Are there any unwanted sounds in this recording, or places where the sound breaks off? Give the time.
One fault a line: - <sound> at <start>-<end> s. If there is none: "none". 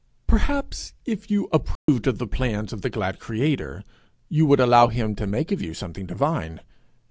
- dropout at 1.8-1.9 s